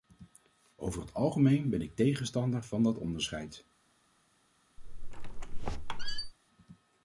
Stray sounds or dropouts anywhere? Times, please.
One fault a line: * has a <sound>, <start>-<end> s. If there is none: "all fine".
* has a squeak, 4.8-6.3 s